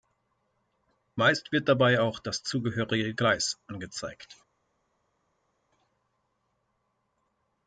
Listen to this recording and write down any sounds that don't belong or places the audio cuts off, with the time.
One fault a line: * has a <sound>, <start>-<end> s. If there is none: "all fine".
all fine